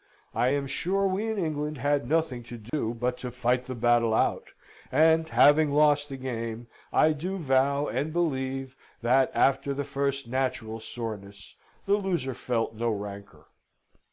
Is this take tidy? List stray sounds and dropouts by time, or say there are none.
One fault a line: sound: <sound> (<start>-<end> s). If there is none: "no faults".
sound: dropout (2.7-2.7 s)